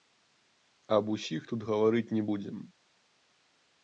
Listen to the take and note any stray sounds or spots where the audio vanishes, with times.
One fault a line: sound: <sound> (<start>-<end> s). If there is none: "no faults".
no faults